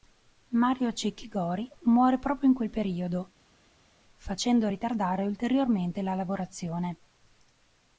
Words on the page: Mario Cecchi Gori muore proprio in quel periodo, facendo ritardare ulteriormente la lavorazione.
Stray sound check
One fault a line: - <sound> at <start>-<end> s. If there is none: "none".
none